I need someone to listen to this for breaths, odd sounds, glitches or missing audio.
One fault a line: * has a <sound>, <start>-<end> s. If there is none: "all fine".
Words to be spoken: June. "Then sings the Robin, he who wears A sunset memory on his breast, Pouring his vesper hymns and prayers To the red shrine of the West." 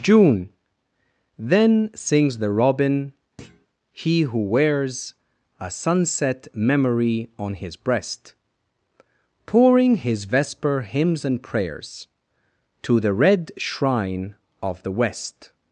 * has a thud, 3.4-3.7 s